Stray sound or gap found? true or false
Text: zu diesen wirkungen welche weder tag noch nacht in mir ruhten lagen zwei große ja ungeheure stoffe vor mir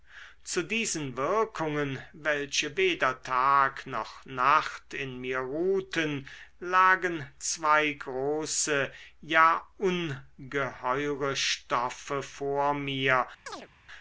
true